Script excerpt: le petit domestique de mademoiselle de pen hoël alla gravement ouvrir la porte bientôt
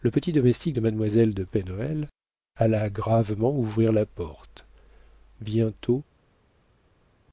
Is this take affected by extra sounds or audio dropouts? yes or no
no